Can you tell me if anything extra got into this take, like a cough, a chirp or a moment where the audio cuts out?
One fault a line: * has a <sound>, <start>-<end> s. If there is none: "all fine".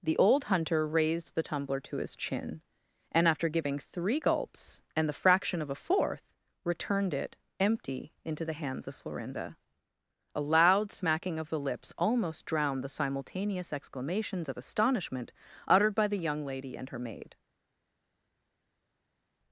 all fine